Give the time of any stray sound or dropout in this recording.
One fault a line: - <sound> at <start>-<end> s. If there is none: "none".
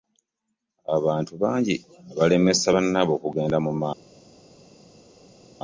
none